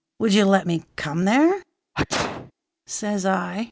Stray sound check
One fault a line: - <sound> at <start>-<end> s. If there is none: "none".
- sneeze at 1.9-2.5 s